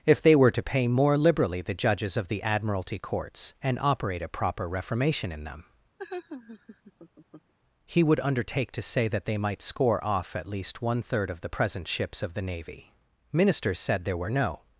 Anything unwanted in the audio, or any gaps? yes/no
yes